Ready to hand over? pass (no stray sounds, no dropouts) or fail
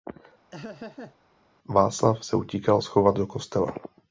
fail